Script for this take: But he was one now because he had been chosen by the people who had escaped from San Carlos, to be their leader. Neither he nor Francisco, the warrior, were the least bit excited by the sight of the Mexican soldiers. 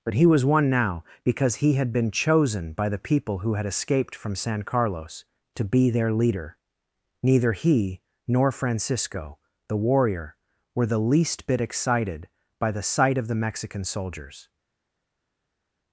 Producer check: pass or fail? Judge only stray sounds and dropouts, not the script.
pass